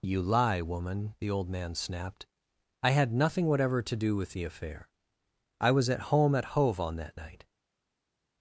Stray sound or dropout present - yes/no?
no